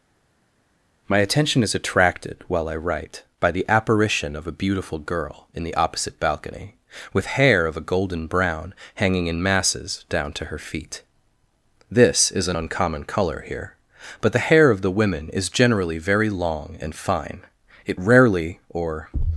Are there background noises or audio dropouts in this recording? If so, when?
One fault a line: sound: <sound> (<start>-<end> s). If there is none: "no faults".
no faults